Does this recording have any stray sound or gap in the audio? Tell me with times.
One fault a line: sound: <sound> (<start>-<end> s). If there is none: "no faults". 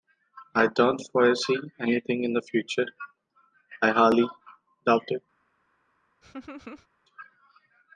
sound: laugh (6.2-6.9 s)